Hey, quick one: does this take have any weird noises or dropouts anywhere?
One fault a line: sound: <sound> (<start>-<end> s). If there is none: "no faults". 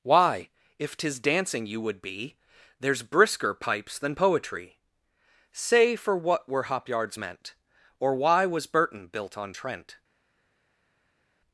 no faults